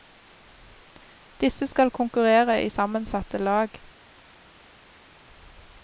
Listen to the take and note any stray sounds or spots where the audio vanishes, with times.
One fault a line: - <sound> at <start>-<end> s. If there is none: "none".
none